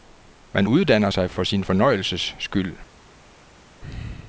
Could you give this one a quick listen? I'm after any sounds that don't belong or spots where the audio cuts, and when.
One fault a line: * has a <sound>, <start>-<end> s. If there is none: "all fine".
all fine